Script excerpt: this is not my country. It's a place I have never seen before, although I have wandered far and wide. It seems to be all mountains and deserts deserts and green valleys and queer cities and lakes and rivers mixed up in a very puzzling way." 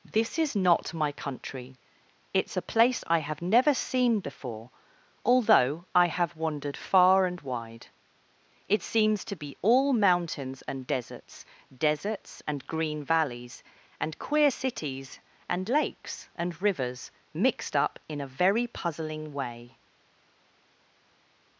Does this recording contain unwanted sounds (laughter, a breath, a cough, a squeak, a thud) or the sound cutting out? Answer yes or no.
no